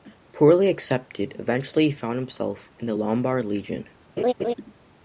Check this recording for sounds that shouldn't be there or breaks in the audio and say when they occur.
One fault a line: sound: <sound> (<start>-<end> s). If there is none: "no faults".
sound: laugh (4.2-4.5 s)